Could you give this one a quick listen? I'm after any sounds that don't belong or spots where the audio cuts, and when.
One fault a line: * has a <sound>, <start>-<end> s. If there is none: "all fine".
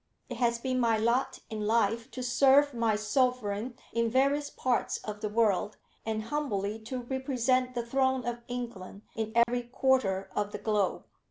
* has a dropout, 9.4-9.5 s